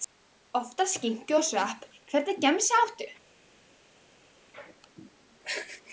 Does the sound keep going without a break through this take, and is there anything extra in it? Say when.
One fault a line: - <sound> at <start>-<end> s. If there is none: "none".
none